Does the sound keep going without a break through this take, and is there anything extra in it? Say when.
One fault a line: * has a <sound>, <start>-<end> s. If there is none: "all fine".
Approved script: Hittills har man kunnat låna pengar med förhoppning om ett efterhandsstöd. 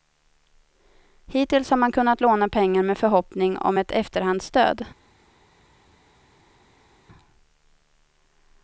all fine